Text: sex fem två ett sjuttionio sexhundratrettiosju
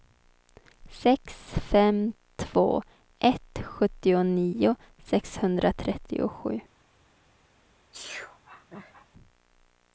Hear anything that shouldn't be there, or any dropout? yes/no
yes